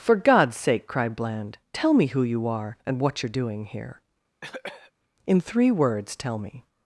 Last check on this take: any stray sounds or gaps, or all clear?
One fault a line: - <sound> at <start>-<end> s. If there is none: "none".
- cough at 4.4-4.9 s